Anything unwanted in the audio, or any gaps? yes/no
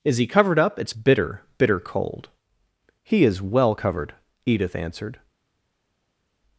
no